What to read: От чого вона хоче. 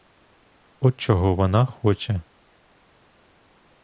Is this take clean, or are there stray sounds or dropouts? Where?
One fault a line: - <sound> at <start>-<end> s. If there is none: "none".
none